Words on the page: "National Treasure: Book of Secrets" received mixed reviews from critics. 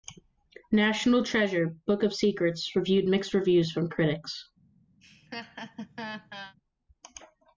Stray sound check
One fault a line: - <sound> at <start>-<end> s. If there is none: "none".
- laugh at 5.0-6.6 s